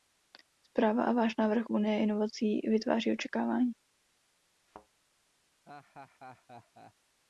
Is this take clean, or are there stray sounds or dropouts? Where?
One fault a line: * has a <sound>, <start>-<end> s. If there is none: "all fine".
* has a thud, 4.7-4.9 s
* has a laugh, 5.7-6.9 s